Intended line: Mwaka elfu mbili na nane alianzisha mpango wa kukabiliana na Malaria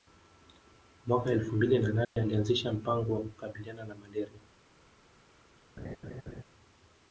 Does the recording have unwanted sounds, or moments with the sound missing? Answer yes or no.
yes